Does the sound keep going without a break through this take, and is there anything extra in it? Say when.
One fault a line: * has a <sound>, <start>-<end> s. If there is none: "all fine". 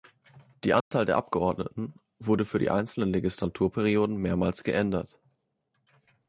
* has a dropout, 0.8-0.9 s